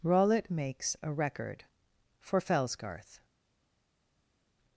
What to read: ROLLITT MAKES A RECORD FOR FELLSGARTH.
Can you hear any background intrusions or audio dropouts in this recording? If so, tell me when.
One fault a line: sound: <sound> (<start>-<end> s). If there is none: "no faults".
no faults